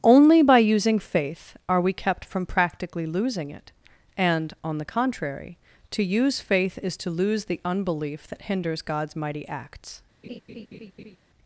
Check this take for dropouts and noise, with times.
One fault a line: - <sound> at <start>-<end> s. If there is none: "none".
- laugh at 10.2-11.2 s